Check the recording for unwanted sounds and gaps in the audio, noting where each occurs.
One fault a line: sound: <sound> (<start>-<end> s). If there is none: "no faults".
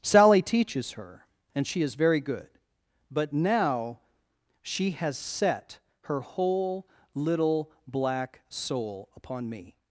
no faults